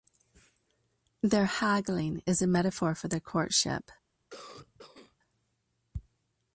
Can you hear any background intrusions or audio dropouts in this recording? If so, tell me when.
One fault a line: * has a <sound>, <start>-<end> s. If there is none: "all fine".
* has a cough, 4.3-5.2 s